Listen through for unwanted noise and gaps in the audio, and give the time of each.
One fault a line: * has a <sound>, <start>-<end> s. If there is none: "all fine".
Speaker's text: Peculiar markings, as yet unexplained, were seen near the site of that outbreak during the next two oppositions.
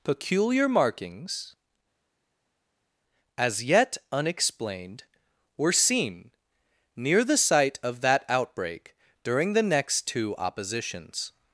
all fine